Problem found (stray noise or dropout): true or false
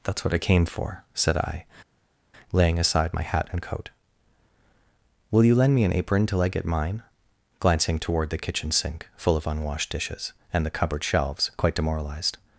false